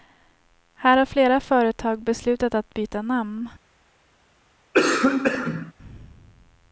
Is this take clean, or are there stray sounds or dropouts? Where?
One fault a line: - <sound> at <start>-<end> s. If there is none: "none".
- cough at 4.7-5.7 s